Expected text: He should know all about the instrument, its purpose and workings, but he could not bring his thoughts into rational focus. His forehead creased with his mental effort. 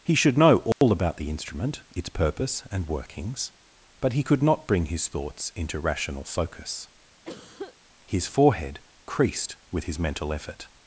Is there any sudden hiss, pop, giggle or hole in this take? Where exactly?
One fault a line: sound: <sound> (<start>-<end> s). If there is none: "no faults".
sound: dropout (0.7-0.8 s)
sound: cough (7.2-7.8 s)